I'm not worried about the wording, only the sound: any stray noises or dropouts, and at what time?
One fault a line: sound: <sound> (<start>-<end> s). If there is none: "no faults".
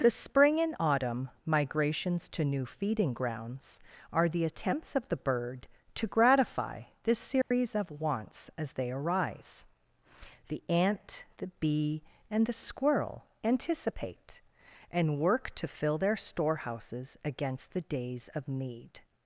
sound: dropout (7.4-7.5 s)